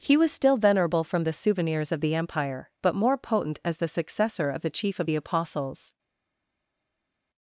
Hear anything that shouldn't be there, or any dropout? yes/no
no